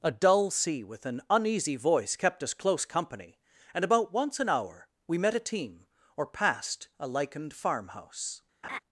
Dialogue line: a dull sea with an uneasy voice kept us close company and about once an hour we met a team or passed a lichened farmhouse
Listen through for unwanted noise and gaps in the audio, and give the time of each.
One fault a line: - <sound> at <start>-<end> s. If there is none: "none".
- laugh at 8.6-8.8 s